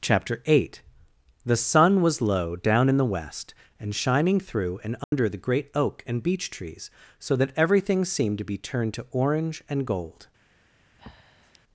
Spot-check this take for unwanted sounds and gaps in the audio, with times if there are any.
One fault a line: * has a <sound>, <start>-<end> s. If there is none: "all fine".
* has a dropout, 5.0-5.1 s
* has a breath, 11.0-11.6 s